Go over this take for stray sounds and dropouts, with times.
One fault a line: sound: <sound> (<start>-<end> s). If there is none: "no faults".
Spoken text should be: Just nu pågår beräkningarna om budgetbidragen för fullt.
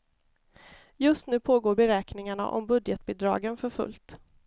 no faults